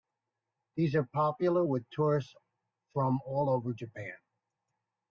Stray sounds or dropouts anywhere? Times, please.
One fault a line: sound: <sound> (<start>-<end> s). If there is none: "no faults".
no faults